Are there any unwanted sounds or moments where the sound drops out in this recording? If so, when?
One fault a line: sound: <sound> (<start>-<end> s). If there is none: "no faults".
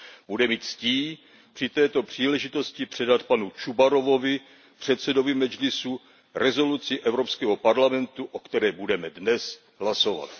no faults